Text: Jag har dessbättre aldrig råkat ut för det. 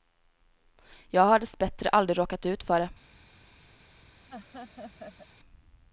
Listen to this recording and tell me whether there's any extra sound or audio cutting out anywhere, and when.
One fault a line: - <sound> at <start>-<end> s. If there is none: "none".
- laugh at 4.3-5.3 s